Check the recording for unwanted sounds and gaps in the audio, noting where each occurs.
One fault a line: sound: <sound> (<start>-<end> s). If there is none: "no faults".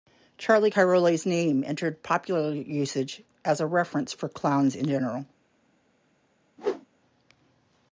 sound: whoosh (6.6-6.9 s)